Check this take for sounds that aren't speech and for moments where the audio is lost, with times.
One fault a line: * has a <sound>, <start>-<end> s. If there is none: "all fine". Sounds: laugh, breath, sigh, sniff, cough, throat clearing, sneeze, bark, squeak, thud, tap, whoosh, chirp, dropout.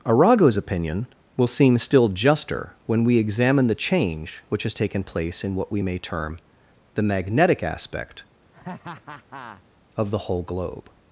* has a laugh, 8.5-9.6 s